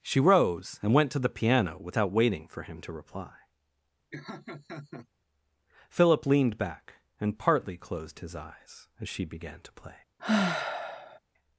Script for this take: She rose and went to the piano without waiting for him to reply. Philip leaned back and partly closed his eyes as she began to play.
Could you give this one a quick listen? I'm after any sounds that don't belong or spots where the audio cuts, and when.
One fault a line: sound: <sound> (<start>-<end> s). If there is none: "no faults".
sound: laugh (4.1-5.1 s)
sound: sigh (10.2-11.2 s)